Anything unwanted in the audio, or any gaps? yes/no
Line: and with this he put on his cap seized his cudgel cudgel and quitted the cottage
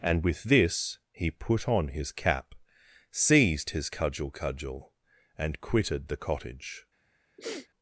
yes